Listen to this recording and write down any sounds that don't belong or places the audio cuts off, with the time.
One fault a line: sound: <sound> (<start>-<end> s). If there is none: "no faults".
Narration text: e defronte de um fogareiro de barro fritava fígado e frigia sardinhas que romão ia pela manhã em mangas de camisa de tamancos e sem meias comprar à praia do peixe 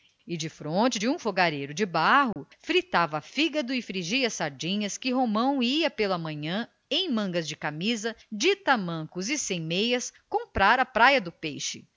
sound: dropout (2.3-2.4 s)